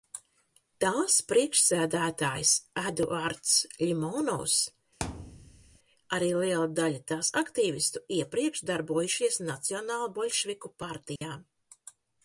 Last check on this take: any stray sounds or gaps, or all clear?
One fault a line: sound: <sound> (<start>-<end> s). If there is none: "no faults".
sound: thud (5.0-5.8 s)
sound: dropout (11.2-11.2 s)